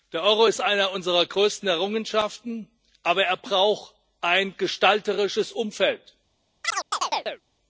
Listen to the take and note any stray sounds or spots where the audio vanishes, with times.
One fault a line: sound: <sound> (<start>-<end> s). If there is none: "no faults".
sound: chirp (6.6-7.4 s)